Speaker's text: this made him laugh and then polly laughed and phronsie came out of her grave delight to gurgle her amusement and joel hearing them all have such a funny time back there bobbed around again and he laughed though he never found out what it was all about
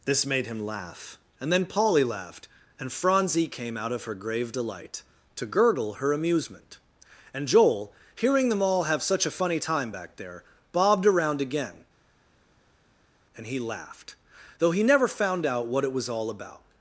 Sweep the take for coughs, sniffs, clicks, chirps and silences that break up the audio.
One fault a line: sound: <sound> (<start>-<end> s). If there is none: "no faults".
no faults